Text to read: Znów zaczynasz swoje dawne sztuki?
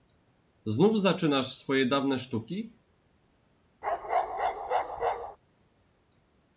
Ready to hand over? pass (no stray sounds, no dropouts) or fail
fail